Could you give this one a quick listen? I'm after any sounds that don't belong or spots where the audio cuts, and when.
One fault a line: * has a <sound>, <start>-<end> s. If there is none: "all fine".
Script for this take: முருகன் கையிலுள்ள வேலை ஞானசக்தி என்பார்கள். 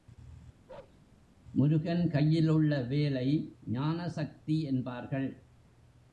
* has a bark, 0.7-1.0 s